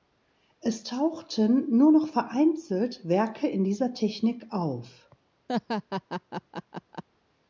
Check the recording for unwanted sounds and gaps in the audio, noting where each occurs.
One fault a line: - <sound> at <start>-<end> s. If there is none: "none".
- laugh at 5.5-7.0 s